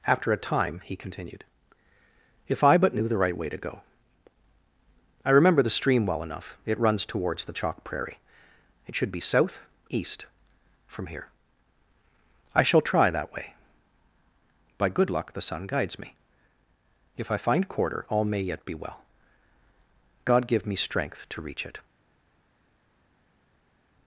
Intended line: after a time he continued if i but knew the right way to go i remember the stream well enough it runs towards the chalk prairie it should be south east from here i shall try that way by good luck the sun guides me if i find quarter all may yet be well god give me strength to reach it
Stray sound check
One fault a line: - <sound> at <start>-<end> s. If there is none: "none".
none